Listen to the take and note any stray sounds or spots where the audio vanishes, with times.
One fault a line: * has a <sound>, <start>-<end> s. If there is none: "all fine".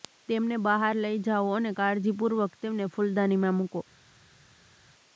all fine